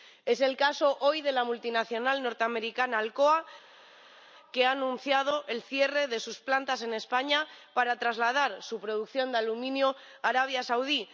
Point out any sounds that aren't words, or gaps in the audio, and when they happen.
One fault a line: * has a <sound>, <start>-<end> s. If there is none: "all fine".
all fine